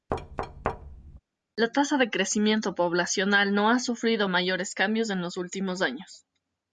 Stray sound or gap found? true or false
true